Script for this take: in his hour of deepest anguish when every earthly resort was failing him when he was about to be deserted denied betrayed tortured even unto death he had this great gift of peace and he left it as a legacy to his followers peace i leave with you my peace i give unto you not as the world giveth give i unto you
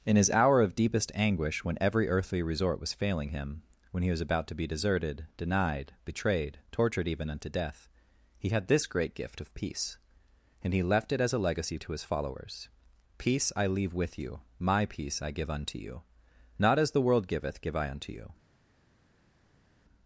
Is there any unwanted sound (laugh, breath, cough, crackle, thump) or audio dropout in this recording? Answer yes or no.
no